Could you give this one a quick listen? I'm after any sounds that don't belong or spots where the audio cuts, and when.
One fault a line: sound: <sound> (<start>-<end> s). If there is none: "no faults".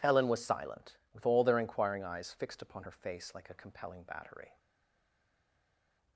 no faults